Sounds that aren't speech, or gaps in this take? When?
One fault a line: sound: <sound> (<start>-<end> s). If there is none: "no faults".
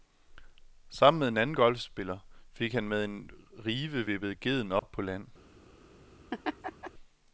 sound: dropout (4.8-4.8 s)
sound: laugh (6.3-6.9 s)